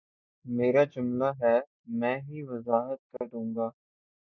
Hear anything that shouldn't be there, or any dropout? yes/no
yes